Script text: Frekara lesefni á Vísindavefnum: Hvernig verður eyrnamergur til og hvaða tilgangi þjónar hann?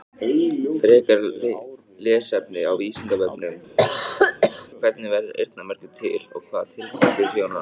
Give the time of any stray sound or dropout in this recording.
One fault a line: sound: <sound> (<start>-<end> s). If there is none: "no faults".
sound: cough (3.8-4.7 s)